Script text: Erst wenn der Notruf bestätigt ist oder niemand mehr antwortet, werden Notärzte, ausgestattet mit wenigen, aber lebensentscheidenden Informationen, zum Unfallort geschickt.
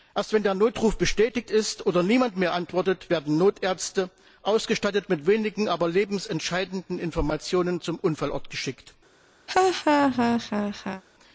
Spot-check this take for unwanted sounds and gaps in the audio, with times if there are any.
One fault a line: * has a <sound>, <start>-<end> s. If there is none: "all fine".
* has a laugh, 9.5-11.0 s